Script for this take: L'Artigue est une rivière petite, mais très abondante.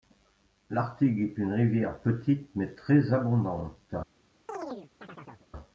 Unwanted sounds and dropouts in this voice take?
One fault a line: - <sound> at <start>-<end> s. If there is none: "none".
- chirp at 4.5-5.5 s